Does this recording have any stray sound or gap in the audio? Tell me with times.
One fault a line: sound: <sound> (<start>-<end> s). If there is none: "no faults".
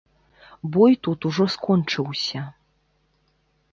no faults